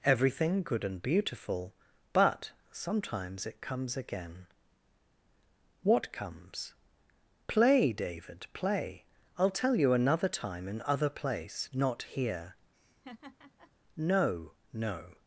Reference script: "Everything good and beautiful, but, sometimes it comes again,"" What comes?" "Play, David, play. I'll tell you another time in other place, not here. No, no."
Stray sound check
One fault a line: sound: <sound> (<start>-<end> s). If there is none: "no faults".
sound: laugh (12.7-13.7 s)